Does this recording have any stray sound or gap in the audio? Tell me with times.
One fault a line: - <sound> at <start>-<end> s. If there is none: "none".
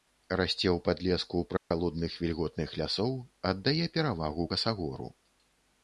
- dropout at 1.6-1.7 s